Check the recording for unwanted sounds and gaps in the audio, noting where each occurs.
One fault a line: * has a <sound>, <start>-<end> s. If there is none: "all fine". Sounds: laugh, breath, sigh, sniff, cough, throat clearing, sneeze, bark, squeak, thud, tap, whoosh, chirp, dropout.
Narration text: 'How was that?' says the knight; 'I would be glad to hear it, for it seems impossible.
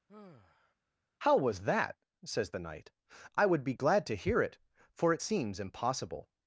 * has a sigh, 0.1-0.7 s